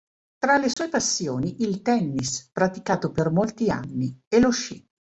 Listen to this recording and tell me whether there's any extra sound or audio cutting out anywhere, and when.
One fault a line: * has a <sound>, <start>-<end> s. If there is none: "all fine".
* has a dropout, 0.7-0.8 s